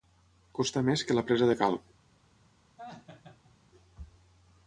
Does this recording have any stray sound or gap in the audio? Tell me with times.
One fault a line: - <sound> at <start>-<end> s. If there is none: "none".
- laugh at 2.8-3.6 s